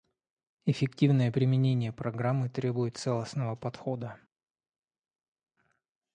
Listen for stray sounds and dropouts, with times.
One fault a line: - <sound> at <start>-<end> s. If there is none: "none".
none